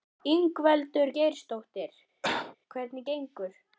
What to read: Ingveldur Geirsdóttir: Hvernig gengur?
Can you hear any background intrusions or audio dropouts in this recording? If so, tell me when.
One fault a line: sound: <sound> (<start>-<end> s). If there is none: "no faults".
sound: cough (2.2-2.6 s)